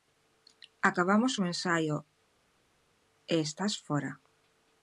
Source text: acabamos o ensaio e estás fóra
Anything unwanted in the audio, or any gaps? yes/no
no